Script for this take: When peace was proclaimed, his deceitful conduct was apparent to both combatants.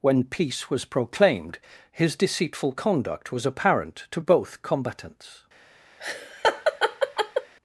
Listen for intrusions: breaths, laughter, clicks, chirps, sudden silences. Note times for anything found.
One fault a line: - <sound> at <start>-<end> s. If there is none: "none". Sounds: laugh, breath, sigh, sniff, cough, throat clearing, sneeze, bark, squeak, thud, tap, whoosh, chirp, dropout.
- laugh at 6.0-7.5 s